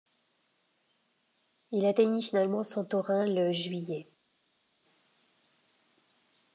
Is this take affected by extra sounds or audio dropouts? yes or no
no